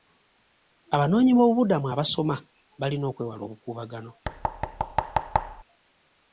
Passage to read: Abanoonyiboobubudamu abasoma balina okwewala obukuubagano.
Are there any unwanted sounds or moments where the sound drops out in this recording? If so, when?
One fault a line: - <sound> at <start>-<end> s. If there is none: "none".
- thud at 4.2-5.6 s